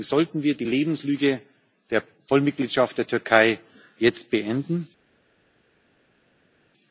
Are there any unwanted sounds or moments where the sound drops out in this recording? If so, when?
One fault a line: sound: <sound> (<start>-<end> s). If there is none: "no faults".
no faults